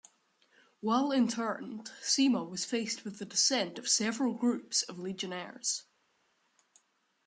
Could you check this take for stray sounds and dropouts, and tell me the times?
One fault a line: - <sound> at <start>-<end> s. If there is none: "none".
none